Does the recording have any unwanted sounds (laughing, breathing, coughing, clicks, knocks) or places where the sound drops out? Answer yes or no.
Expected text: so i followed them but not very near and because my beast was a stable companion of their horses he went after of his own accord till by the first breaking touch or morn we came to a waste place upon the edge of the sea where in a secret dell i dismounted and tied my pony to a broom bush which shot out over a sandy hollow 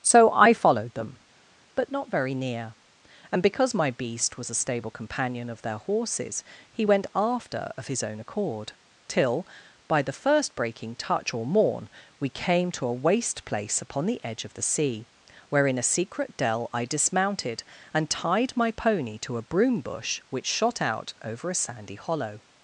no